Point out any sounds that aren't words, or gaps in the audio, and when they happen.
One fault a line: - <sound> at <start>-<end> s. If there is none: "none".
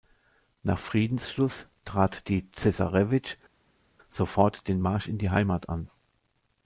none